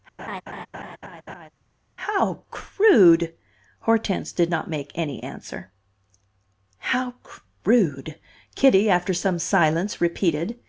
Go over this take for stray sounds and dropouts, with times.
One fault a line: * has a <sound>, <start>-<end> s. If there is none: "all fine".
* has a laugh, 0.2-1.5 s